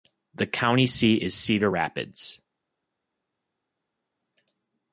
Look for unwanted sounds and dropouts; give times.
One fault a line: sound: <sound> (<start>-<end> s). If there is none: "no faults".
no faults